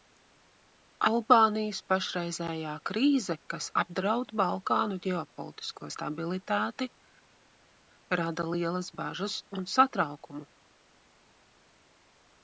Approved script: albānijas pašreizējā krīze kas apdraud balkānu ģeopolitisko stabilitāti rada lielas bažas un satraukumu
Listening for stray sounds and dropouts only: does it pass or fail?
pass